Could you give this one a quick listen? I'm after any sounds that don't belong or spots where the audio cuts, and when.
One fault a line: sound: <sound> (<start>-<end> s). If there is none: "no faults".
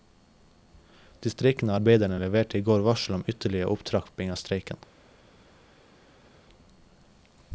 no faults